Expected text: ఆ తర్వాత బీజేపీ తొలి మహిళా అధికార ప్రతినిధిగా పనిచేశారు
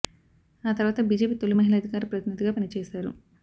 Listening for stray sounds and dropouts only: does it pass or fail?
pass